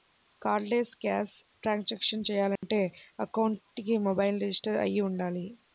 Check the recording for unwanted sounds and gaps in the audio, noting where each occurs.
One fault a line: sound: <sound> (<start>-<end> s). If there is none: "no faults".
sound: dropout (2.6-2.6 s)